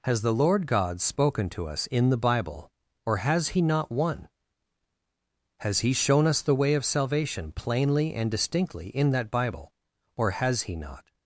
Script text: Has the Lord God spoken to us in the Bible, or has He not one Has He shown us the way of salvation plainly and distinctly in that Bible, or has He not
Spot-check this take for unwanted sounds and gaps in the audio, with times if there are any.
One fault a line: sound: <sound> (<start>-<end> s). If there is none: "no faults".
no faults